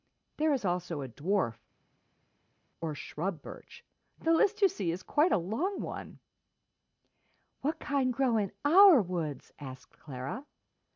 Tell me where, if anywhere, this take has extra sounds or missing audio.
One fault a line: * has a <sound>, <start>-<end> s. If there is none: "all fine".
all fine